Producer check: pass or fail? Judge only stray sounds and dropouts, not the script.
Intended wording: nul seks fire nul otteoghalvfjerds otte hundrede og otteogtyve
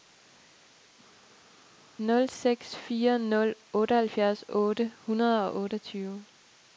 pass